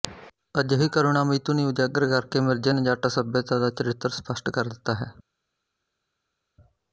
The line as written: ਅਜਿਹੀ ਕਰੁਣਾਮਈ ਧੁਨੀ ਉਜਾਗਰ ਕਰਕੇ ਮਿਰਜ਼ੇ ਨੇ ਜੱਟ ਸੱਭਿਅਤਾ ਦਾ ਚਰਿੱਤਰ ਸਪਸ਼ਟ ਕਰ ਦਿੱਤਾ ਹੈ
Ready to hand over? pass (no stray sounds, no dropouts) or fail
pass